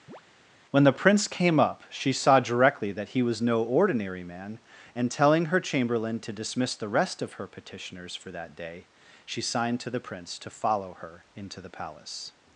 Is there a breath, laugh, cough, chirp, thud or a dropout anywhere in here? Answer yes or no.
yes